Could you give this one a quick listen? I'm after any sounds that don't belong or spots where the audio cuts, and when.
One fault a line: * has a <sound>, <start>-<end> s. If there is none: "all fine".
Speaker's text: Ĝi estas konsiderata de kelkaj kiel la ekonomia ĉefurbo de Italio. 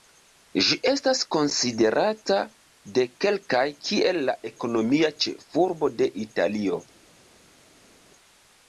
all fine